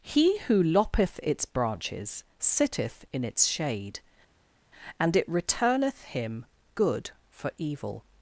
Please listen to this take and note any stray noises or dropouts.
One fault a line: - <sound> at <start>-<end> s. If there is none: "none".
none